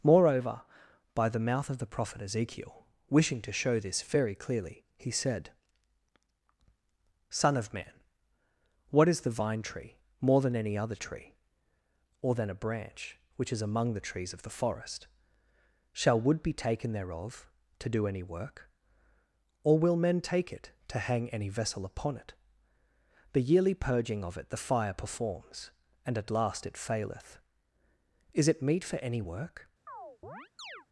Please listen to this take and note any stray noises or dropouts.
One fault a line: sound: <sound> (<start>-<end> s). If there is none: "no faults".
sound: chirp (29.9-30.9 s)